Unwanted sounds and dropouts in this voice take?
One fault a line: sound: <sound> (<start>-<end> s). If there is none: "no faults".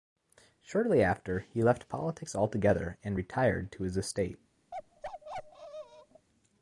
sound: bark (4.7-6.3 s)